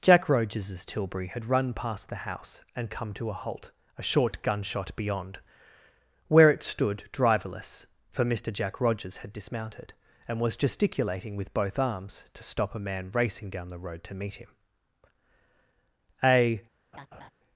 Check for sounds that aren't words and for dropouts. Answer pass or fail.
fail